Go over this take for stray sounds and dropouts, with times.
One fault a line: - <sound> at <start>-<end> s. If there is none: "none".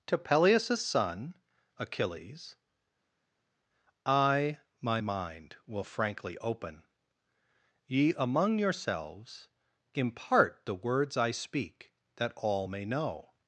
none